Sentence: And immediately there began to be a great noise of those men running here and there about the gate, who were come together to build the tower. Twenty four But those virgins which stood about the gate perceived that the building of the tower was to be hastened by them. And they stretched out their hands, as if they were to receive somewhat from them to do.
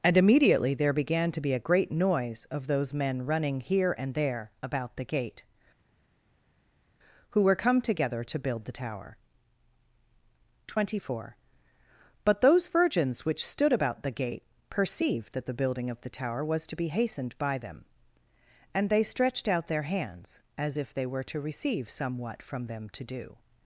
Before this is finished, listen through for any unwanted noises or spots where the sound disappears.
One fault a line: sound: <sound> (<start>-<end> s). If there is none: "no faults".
no faults